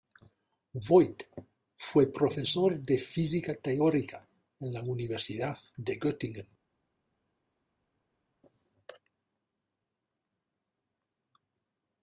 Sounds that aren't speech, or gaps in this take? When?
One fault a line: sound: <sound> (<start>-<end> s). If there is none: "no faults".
no faults